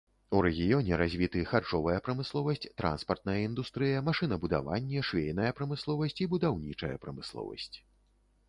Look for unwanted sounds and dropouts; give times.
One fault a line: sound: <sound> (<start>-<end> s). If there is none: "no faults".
no faults